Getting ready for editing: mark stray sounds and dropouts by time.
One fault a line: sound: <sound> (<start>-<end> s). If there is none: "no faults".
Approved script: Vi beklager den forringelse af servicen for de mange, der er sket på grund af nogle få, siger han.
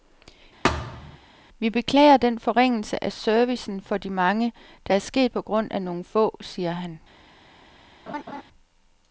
sound: thud (0.6-1.2 s)
sound: laugh (8.1-8.4 s)